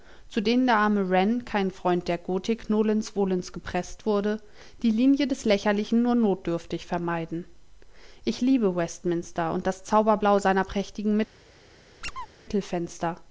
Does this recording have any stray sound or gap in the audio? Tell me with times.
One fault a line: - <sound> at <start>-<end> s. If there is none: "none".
- squeak at 12.0-12.3 s